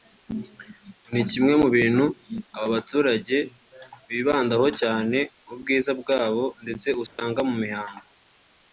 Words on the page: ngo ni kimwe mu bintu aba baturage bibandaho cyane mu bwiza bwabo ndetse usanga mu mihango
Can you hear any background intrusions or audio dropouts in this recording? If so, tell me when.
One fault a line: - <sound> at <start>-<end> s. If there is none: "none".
- dropout at 7.1-7.2 s